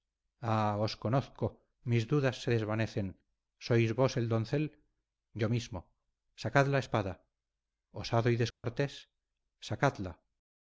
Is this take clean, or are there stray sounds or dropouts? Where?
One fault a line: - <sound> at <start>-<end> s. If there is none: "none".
- dropout at 8.5-8.6 s